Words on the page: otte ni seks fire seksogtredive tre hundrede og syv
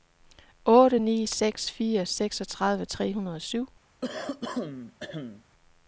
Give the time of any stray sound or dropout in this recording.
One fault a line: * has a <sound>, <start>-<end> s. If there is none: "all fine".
* has a throat clearing, 4.0-5.4 s